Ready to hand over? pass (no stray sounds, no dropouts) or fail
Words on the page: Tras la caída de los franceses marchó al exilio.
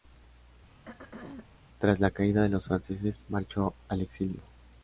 fail